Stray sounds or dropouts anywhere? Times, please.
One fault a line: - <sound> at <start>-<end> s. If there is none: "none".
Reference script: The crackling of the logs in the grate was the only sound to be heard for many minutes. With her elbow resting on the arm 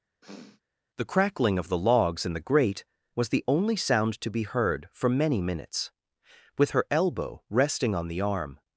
- sniff at 0.2-0.6 s